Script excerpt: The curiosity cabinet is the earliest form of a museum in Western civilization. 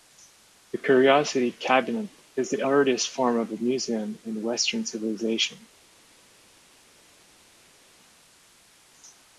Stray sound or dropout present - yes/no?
no